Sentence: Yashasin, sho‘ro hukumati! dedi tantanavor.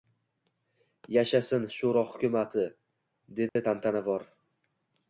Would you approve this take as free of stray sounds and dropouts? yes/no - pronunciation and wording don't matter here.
no